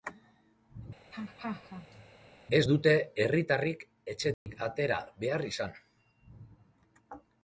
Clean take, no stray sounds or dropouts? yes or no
no